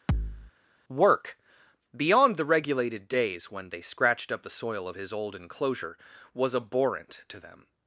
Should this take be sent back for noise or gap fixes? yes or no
yes